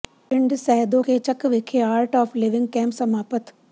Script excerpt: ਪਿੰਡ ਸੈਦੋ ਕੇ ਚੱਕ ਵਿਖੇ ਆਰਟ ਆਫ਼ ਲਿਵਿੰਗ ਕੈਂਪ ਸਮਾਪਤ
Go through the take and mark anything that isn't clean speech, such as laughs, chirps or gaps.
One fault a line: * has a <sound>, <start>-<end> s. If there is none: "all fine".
all fine